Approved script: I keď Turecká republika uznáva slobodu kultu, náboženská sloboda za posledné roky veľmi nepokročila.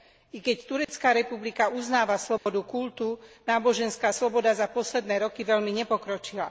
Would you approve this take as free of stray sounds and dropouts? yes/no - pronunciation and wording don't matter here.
no